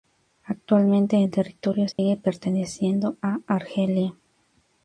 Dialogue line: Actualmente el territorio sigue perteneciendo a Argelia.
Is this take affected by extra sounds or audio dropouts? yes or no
yes